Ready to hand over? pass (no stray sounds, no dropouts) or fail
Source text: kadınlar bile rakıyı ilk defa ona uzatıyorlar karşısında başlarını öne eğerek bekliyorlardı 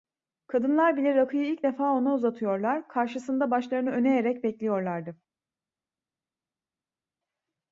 pass